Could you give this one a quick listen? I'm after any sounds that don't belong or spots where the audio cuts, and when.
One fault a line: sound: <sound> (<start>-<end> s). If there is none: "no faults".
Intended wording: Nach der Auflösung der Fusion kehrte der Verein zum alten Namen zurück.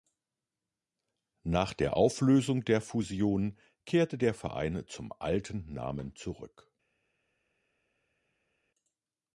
no faults